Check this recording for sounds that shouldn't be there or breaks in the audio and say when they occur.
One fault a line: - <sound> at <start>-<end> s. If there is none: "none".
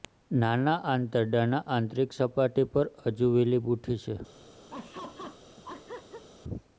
- laugh at 4.7-6.2 s